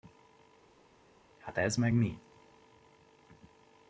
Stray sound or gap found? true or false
false